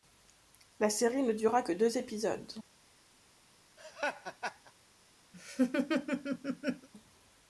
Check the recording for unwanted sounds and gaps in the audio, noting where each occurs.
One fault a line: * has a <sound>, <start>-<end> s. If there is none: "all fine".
* has a laugh, 3.8-4.7 s
* has a laugh, 5.3-6.9 s